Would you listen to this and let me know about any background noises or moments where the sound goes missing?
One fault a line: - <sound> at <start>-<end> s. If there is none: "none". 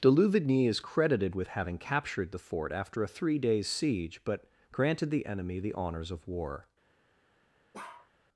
- bark at 7.7-8.1 s